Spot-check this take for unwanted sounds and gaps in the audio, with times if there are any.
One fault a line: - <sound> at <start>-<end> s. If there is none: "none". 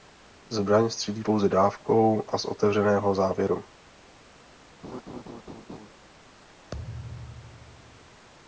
- laugh at 4.8-5.9 s
- thud at 6.7-8.3 s